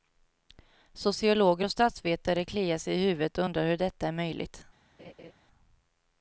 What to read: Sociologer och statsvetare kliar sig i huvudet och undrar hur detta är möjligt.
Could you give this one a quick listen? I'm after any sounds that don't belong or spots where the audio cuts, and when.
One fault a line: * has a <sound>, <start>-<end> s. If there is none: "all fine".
* has a laugh, 5.0-5.3 s